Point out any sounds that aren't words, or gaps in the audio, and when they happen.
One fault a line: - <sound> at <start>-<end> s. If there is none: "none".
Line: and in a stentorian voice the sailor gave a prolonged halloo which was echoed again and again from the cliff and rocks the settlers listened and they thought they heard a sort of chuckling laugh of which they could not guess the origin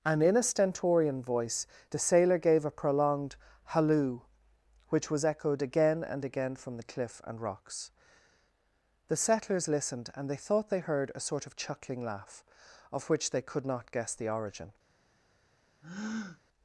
- breath at 15.8-16.4 s